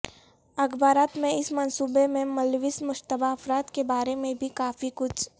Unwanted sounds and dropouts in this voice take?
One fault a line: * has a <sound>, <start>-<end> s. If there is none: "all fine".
all fine